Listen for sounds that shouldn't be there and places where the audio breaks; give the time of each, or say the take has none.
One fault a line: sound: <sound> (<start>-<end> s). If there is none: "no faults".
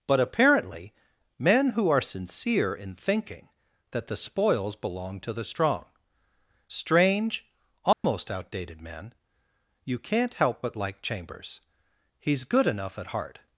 sound: dropout (7.9-8.0 s)